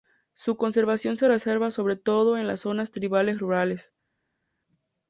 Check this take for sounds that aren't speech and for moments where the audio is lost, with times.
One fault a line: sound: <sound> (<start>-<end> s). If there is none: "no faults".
no faults